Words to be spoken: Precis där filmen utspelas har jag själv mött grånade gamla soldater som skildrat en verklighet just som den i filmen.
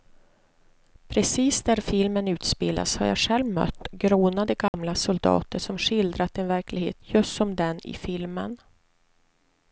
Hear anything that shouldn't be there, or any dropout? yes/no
yes